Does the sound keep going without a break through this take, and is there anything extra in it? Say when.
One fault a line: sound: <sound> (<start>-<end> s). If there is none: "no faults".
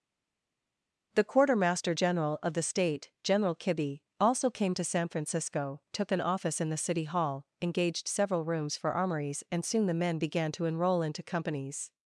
no faults